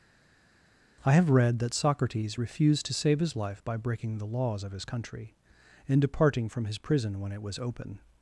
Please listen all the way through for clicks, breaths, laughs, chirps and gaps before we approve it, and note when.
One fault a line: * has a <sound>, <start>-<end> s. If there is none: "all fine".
all fine